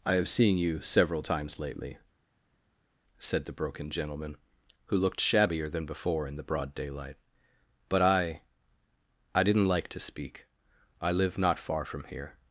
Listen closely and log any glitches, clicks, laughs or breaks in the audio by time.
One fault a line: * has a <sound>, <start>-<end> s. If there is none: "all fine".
all fine